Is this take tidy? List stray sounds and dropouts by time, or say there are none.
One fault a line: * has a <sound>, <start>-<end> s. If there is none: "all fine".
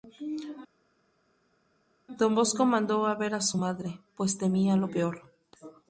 all fine